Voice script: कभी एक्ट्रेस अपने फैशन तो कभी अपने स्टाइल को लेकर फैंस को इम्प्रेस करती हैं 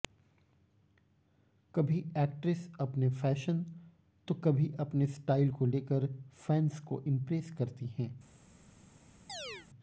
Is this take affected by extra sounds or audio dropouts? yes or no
yes